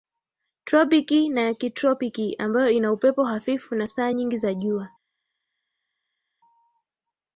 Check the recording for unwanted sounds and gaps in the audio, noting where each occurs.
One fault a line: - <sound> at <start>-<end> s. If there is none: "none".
none